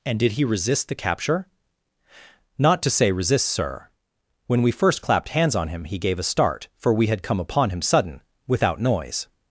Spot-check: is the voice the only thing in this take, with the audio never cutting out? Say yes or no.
yes